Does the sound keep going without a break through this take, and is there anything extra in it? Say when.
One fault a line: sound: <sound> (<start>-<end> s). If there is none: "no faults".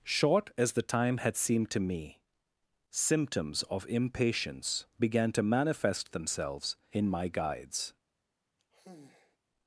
sound: sigh (8.6-9.4 s)